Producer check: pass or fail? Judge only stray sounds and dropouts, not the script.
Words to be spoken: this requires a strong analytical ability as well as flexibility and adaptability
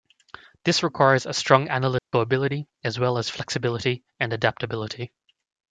fail